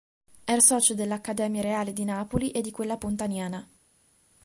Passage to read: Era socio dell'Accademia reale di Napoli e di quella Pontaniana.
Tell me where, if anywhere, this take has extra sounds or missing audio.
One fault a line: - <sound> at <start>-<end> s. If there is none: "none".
none